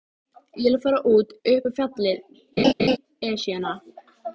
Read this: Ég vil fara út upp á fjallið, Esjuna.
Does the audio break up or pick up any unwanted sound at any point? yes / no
yes